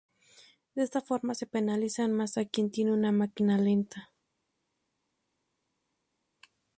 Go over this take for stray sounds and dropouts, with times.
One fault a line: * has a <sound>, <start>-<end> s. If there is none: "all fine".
all fine